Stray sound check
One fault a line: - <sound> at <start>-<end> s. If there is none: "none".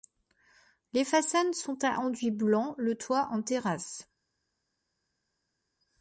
none